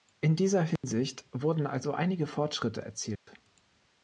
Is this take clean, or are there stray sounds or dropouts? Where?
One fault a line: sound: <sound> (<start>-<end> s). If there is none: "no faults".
sound: dropout (0.8-0.8 s)
sound: dropout (3.2-3.3 s)